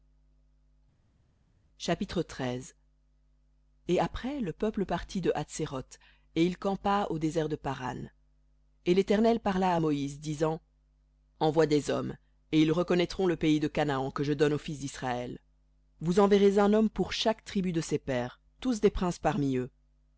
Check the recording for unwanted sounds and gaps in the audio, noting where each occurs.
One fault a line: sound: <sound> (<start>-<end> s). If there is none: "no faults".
no faults